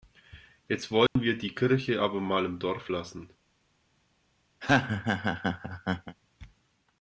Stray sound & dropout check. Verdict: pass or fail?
fail